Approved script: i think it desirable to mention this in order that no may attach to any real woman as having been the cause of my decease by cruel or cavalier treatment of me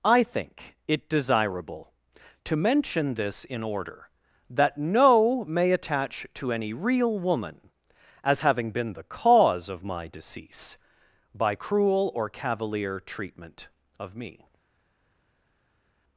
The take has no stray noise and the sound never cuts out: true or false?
true